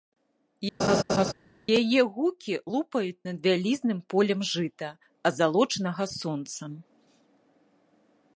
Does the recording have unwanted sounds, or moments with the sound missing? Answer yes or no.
yes